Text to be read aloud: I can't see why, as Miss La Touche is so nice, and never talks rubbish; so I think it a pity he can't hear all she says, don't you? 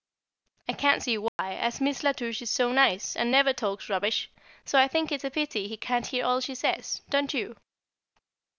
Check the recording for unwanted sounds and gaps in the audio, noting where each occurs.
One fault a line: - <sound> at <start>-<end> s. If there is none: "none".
- dropout at 1.3-1.4 s